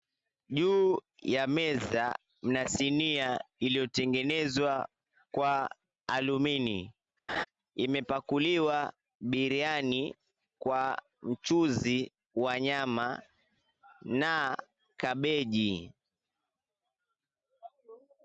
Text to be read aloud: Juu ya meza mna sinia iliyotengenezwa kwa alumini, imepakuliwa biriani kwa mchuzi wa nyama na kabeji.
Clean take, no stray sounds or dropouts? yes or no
no